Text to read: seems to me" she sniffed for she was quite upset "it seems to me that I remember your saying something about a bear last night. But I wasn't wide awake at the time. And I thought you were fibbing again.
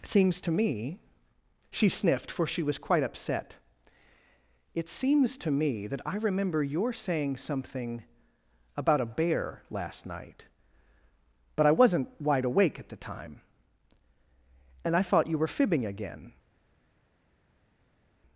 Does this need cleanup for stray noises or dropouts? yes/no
no